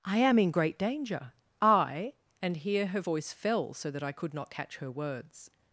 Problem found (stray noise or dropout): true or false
false